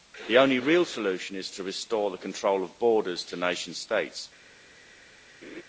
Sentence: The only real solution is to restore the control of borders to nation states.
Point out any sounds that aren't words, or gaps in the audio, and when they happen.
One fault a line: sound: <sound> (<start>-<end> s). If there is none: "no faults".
sound: laugh (5.4-5.6 s)